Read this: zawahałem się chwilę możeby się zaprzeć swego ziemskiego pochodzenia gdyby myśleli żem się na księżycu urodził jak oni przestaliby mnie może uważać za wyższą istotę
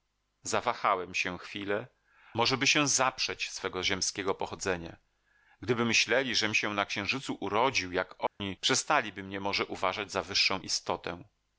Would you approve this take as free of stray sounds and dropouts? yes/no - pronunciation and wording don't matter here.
no